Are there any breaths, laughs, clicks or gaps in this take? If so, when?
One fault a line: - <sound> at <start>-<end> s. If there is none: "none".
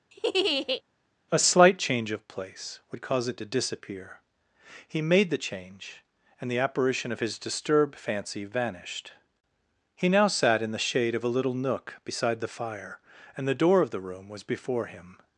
- laugh at 0.1-0.8 s